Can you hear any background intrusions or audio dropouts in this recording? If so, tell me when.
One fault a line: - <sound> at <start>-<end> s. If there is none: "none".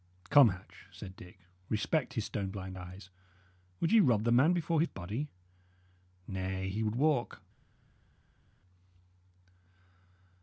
none